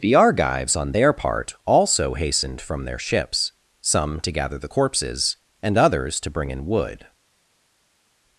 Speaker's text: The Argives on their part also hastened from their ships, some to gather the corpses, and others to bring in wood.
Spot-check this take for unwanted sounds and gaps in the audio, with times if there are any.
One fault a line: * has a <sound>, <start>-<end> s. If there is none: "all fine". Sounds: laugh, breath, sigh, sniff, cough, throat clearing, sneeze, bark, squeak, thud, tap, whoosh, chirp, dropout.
all fine